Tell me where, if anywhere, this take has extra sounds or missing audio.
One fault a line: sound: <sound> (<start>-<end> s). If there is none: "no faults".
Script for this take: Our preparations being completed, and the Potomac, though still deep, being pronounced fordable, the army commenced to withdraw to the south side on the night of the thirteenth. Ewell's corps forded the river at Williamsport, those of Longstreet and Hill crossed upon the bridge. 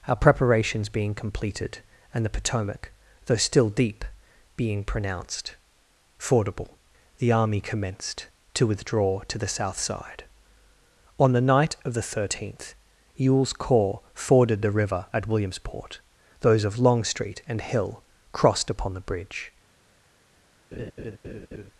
sound: laugh (20.7-21.7 s)